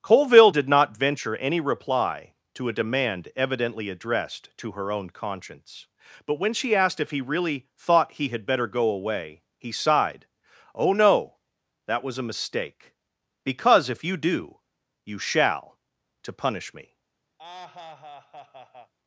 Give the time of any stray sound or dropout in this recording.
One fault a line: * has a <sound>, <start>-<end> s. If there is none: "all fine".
* has a laugh, 17.4-18.9 s